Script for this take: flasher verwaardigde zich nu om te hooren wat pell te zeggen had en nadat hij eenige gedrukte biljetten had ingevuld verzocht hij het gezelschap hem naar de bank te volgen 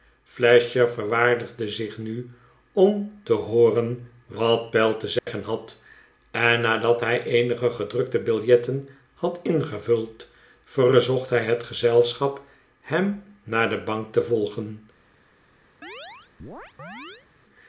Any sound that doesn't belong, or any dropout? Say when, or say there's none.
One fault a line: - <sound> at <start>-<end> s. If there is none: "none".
- dropout at 5.2-5.3 s
- chirp at 15.8-17.3 s